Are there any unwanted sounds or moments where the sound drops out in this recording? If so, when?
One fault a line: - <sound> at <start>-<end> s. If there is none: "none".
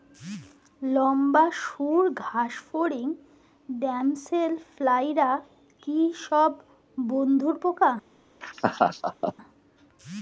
- laugh at 8.4-9.3 s